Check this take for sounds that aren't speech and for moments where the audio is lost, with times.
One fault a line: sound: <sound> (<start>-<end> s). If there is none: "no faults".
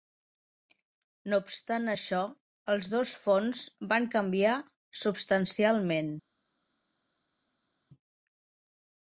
no faults